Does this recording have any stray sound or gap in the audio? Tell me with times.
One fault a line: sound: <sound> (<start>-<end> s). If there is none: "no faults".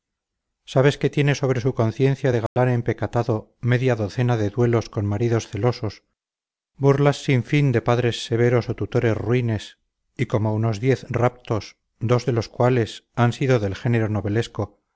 sound: dropout (2.5-2.6 s)